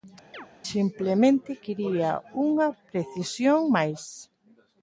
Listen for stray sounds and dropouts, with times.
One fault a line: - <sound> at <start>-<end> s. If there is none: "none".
- chirp at 0.3-0.5 s